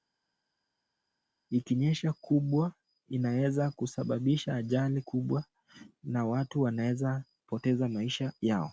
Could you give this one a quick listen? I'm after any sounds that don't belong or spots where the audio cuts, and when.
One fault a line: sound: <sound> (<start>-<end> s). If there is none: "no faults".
no faults